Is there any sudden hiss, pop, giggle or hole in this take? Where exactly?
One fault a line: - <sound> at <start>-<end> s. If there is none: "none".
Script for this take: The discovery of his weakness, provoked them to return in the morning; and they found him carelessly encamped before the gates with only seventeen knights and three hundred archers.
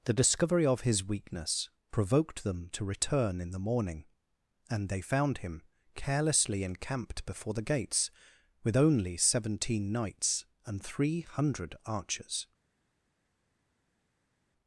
none